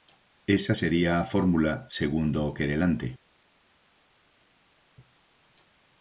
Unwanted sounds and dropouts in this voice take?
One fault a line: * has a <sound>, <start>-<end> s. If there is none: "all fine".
all fine